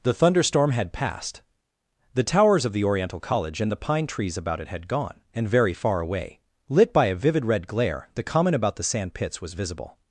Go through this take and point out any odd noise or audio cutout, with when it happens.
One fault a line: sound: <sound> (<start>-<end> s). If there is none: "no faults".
no faults